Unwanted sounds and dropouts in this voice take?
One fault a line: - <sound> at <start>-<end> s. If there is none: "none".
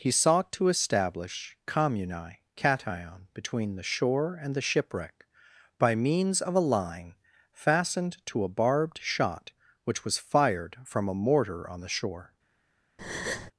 - breath at 13.0-13.5 s